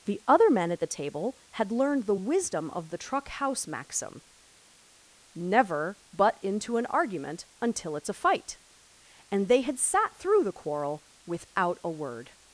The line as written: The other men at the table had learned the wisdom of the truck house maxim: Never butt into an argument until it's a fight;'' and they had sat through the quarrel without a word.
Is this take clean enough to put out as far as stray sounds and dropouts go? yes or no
yes